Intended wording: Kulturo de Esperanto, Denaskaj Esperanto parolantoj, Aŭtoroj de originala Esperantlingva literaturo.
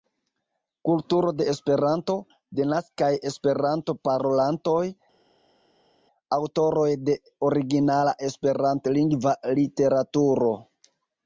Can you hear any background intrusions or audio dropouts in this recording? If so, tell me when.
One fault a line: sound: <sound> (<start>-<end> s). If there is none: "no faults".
no faults